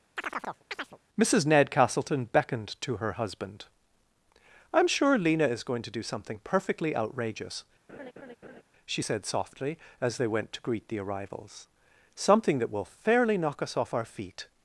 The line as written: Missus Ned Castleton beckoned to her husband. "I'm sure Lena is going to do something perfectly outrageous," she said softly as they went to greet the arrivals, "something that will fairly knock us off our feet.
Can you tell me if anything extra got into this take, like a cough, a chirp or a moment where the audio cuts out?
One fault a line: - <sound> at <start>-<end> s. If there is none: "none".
- chirp at 0.2-1.0 s
- laugh at 7.9-8.6 s